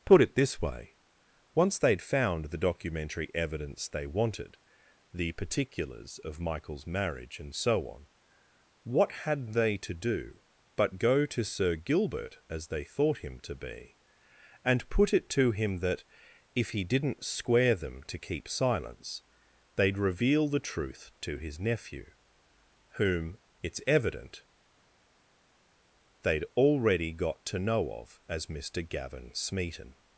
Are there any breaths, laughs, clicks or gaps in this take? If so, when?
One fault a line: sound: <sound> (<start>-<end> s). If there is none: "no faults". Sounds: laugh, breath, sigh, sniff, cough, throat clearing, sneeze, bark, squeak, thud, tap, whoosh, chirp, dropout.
no faults